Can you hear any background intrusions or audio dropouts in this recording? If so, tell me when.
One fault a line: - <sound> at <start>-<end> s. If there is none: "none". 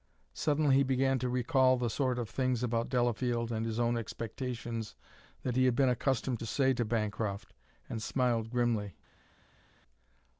none